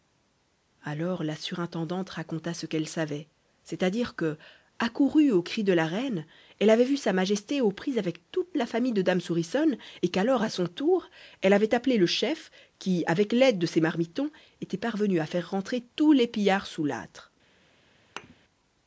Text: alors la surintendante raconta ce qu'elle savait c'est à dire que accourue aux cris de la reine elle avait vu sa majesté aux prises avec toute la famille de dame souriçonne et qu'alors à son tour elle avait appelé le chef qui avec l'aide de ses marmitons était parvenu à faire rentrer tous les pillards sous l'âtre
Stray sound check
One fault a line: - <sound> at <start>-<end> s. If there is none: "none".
- thud at 18.2-18.4 s